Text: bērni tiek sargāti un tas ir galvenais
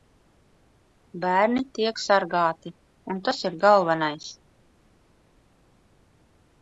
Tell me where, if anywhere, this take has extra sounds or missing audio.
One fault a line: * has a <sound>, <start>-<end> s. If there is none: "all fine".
all fine